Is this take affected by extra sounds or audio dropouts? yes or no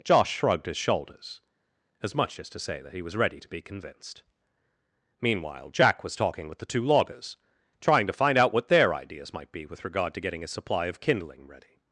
no